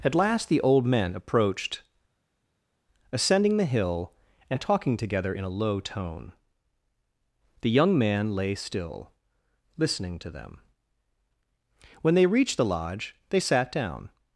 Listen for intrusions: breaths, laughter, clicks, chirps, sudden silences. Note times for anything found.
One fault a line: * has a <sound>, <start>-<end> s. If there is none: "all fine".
all fine